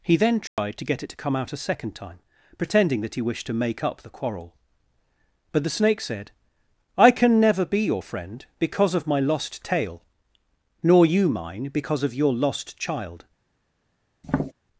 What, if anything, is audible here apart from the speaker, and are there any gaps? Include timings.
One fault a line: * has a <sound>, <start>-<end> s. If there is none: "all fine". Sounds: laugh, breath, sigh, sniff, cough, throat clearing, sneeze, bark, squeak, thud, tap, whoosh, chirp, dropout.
* has a dropout, 0.5-0.6 s
* has a tap, 14.2-14.5 s